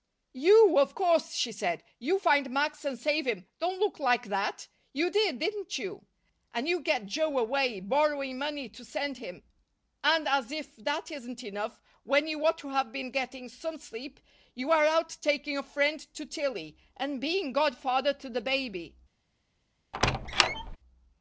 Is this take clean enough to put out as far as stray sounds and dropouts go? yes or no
no